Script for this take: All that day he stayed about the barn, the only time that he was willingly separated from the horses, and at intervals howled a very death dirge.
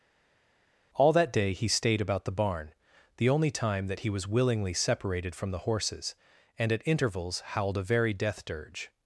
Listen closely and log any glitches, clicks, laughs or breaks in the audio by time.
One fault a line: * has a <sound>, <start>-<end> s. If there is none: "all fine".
all fine